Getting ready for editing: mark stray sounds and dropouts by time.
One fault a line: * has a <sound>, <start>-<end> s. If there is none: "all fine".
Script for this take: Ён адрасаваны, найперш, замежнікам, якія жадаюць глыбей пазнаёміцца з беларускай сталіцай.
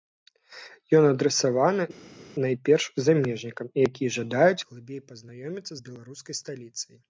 all fine